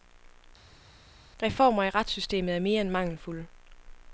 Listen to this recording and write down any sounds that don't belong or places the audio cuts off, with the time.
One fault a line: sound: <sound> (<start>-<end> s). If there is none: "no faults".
no faults